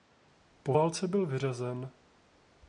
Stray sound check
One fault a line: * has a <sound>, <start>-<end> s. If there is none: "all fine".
all fine